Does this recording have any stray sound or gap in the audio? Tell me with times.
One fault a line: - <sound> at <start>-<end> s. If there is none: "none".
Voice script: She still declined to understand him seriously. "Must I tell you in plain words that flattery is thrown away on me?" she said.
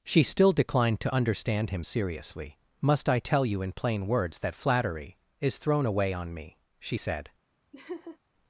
- laugh at 7.7-8.2 s